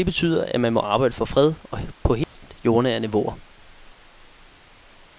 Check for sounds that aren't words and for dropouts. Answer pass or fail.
fail